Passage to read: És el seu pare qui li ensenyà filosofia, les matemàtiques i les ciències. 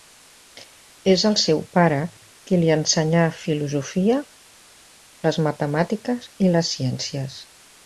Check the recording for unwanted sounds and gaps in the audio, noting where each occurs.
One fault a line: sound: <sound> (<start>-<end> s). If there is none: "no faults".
no faults